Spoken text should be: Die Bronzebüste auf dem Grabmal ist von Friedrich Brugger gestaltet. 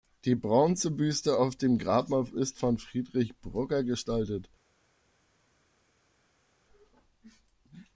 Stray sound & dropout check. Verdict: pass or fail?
pass